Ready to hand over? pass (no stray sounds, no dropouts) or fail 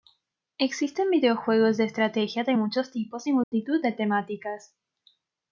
fail